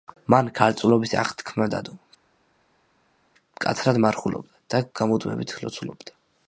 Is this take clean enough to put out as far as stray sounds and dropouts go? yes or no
yes